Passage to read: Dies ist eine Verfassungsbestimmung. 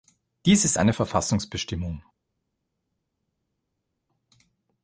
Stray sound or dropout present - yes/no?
no